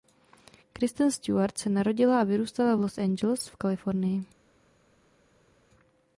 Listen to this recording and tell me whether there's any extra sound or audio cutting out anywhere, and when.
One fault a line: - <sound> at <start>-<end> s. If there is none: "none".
none